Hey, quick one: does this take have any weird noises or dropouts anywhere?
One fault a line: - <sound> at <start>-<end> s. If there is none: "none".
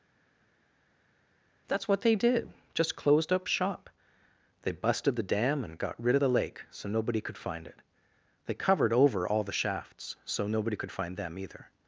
none